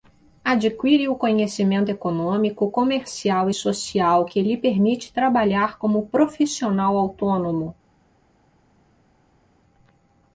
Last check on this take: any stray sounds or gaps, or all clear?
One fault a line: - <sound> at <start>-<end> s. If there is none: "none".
none